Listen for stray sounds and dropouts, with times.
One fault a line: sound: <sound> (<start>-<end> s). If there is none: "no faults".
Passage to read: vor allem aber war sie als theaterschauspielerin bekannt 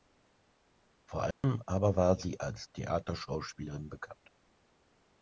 sound: dropout (1.3-1.4 s)